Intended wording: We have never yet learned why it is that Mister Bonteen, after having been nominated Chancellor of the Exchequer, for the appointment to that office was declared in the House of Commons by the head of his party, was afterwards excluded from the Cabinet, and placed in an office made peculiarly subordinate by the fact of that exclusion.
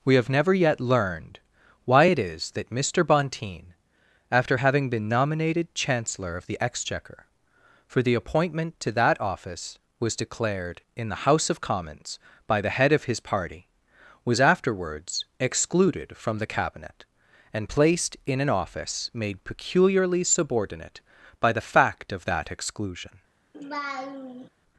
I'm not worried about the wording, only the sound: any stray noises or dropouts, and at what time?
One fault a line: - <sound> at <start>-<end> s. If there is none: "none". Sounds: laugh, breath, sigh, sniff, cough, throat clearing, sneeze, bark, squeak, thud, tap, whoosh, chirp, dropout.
- laugh at 23.5-24.5 s